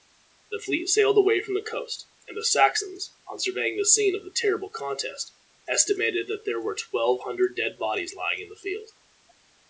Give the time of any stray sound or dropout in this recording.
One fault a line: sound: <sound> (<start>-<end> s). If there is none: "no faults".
no faults